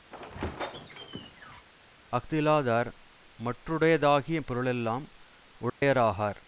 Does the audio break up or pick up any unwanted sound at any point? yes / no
yes